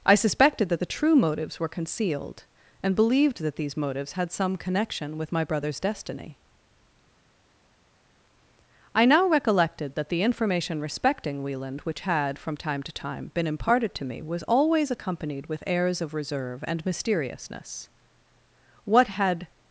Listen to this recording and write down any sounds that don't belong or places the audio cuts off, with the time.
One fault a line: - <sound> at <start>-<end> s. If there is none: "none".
none